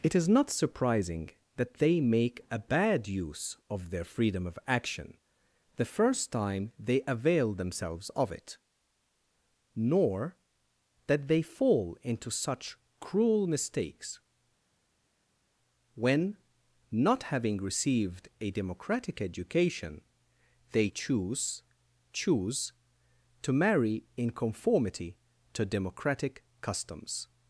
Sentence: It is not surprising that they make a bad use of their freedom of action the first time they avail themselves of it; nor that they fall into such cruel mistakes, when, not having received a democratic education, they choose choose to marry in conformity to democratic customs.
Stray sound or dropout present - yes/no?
no